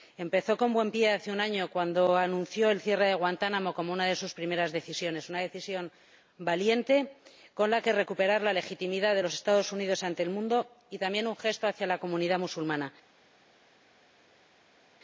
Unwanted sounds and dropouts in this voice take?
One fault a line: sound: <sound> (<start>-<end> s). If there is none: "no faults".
no faults